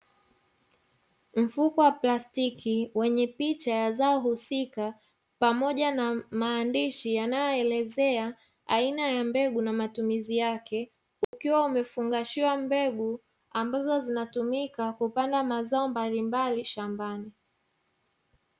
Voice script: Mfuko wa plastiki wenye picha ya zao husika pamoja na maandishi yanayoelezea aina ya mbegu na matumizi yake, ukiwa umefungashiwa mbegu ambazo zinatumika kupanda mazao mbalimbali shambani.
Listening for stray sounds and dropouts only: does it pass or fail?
fail